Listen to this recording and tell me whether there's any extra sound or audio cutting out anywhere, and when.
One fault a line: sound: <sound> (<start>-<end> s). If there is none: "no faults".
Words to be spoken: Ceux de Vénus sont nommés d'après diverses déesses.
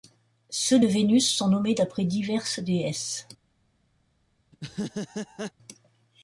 sound: laugh (4.5-5.5 s)